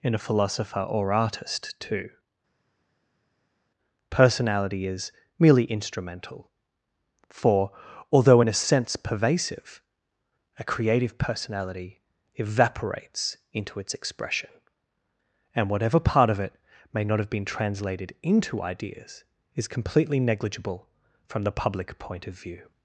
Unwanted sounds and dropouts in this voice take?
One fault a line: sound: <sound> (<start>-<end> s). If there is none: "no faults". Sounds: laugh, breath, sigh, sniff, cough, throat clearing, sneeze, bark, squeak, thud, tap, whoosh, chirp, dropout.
no faults